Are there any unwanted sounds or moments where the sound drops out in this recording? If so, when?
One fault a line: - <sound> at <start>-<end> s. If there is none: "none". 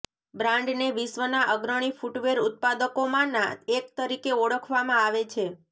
none